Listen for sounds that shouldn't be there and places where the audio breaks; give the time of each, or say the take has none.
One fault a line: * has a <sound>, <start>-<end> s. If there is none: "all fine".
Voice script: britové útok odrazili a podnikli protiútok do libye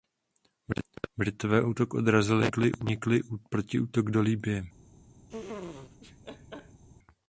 * has a laugh, 5.3-6.8 s